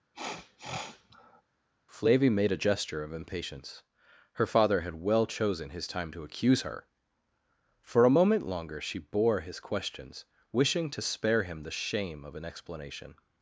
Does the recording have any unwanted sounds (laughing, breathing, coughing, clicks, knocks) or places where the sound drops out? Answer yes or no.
yes